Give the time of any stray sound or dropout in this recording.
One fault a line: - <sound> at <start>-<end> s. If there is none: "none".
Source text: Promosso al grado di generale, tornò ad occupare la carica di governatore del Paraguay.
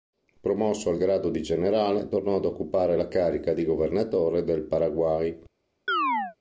- chirp at 5.9-6.4 s